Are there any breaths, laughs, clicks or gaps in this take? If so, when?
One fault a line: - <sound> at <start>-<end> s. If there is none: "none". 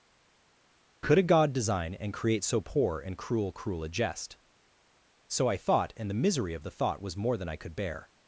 none